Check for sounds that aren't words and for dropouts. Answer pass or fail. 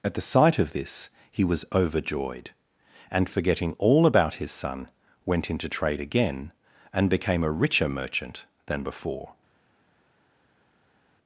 pass